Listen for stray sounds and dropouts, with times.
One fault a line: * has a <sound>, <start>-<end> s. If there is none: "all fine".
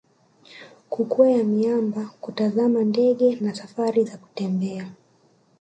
all fine